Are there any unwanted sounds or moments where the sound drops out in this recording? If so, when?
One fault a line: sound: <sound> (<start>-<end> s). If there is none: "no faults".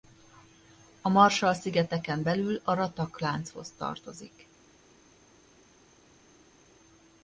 no faults